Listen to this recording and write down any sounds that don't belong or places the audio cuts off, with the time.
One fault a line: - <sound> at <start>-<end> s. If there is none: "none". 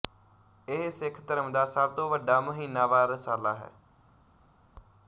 none